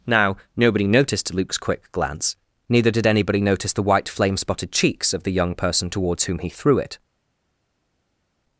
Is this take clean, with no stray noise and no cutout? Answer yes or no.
yes